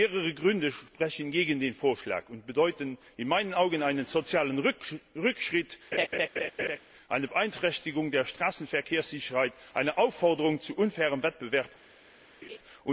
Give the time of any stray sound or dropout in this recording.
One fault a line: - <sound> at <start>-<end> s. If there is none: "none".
- laugh at 5.9-6.8 s
- laugh at 12.4-12.6 s